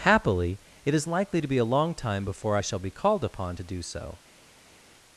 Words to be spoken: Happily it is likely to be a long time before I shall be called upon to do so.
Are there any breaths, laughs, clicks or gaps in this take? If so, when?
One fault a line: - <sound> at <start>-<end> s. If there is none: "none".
none